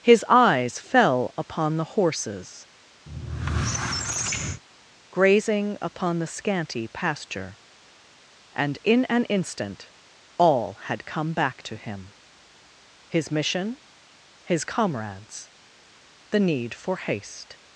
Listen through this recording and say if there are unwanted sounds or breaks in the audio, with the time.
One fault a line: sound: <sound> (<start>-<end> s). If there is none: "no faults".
sound: squeak (3.1-4.6 s)